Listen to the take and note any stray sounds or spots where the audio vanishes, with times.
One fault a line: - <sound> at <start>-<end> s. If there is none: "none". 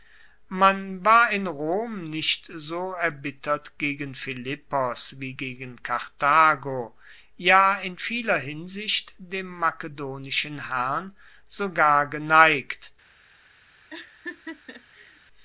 - laugh at 13.9-15.2 s